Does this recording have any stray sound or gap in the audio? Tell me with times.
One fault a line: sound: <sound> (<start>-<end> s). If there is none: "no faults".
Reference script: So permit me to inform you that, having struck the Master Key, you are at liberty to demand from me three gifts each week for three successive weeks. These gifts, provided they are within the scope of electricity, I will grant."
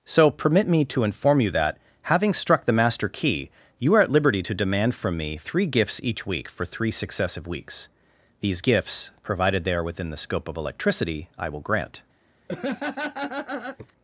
sound: laugh (12.5-13.9 s)